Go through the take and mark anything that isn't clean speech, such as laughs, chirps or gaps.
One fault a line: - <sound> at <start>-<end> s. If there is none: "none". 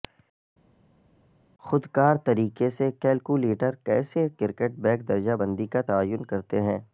none